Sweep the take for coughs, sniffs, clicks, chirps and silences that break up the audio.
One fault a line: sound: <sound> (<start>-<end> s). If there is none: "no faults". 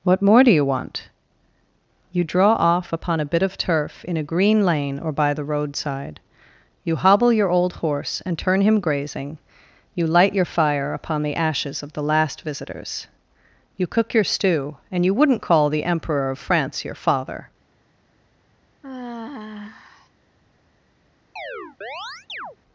sound: sigh (18.8-20.1 s)
sound: chirp (21.4-22.6 s)